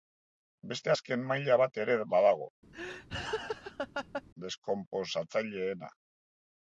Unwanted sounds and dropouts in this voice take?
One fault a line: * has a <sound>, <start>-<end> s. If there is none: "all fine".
* has a laugh, 2.7-4.2 s